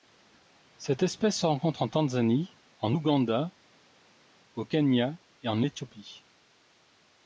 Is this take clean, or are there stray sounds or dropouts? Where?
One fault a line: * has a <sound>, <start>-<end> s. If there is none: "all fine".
all fine